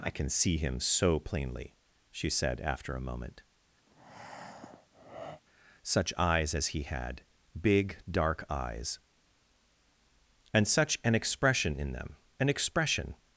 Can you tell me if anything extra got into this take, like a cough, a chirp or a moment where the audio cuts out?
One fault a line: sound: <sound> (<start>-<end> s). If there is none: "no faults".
sound: breath (3.9-5.4 s)